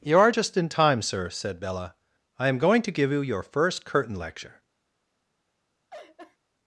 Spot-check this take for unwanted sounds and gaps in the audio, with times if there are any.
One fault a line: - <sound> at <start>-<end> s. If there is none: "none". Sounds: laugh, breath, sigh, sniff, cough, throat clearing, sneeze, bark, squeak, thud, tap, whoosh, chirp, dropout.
- laugh at 5.9-6.4 s